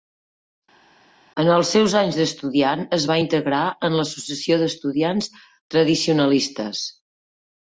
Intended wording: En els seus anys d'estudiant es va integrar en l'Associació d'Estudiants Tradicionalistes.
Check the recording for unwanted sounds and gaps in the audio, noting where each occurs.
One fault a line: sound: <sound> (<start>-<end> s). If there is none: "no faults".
no faults